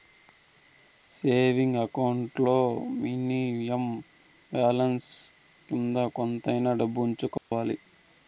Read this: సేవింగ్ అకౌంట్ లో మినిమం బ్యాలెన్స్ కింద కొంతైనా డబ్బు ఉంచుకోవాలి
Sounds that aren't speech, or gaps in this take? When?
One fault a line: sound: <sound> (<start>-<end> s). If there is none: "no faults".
sound: dropout (7.4-7.5 s)